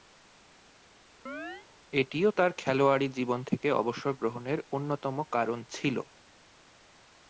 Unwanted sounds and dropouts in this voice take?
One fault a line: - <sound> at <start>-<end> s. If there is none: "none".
- chirp at 1.3-1.7 s